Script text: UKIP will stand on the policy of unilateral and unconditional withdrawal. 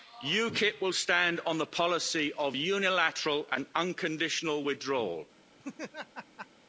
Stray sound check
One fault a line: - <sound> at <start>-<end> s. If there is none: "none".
- laugh at 5.6-6.5 s